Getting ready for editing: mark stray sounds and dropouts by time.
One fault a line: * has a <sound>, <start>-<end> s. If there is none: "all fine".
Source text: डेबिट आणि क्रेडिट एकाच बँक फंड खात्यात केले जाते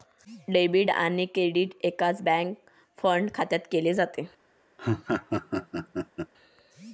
* has a laugh, 4.8-6.3 s